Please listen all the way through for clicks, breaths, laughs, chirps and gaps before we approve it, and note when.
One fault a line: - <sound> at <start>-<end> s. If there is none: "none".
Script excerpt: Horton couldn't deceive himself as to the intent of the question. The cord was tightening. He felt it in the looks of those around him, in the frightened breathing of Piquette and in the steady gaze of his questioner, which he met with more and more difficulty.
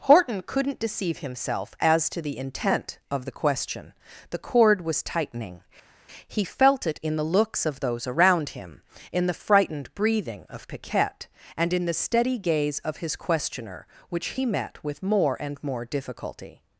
none